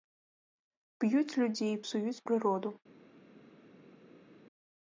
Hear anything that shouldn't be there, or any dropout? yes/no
no